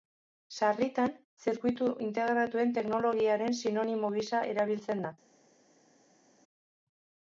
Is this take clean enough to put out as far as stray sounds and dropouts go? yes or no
yes